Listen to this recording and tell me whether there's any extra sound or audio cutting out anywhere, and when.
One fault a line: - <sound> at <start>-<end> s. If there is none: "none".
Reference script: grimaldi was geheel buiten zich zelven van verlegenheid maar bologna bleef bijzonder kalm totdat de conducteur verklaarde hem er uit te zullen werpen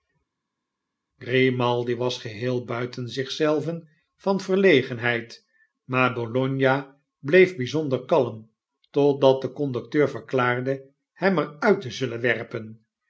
none